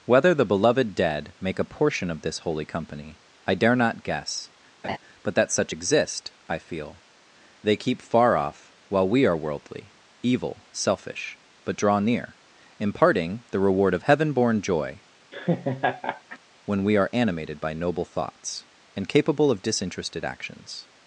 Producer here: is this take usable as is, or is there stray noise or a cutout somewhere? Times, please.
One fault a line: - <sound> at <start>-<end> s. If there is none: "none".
- laugh at 4.8-5.0 s
- laugh at 15.3-16.4 s